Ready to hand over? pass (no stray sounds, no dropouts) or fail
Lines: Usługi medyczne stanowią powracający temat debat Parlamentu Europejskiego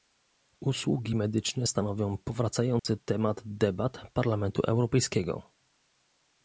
fail